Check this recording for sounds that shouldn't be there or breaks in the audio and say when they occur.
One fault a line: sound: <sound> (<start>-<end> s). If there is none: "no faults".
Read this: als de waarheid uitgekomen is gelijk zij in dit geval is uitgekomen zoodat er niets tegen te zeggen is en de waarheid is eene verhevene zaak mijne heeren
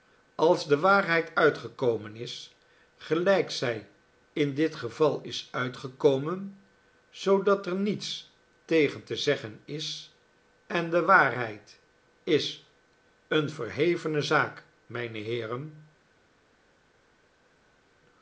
no faults